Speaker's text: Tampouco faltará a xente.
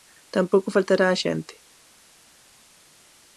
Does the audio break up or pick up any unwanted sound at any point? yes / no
no